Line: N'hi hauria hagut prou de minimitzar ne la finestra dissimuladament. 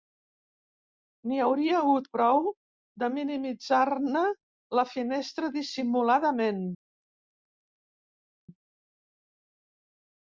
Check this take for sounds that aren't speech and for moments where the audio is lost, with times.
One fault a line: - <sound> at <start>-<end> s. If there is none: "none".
none